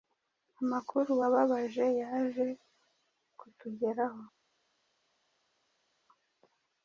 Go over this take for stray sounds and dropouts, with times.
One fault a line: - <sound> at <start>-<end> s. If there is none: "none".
none